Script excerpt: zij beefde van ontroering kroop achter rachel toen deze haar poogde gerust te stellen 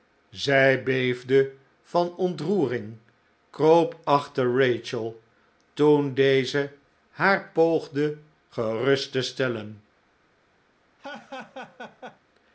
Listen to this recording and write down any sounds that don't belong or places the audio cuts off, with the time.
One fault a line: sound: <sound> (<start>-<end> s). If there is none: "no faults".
sound: laugh (11.0-12.2 s)